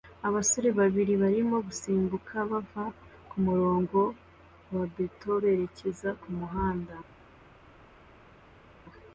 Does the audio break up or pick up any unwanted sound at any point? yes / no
no